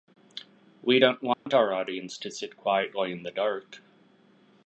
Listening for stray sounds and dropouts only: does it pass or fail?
fail